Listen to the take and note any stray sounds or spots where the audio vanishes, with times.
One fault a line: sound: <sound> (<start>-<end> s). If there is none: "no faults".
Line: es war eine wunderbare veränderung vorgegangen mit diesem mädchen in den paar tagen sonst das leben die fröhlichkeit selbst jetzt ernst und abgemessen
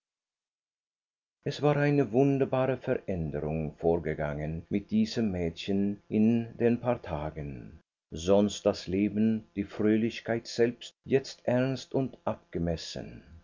no faults